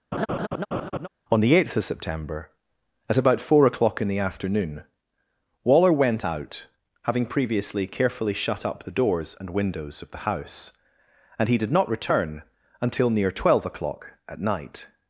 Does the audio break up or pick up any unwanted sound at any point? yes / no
yes